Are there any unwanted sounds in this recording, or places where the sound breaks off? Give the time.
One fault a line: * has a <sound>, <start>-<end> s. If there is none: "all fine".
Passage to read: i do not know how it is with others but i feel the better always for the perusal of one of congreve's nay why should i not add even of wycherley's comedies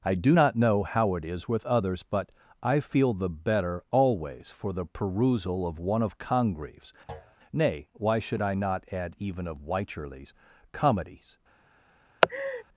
* has a thud, 7.1-7.4 s
* has a laugh, 12.2-12.6 s